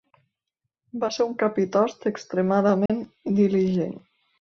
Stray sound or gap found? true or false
true